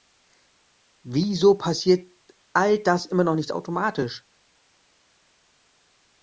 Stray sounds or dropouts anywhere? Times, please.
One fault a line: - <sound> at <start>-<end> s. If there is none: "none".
none